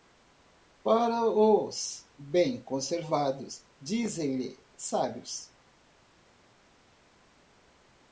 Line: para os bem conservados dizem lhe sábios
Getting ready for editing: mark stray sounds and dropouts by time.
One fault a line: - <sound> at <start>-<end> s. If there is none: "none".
none